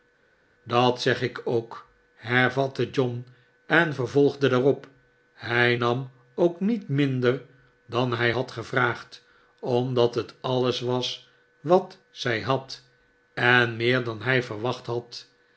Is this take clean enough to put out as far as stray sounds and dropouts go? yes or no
yes